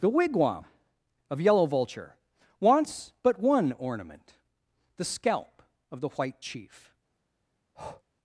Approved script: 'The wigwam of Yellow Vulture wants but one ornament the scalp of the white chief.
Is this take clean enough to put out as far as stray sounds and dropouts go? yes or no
no